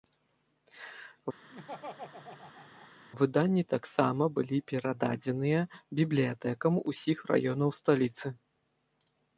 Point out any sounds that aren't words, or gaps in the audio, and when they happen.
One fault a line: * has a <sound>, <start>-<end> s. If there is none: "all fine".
* has a laugh, 1.5-2.9 s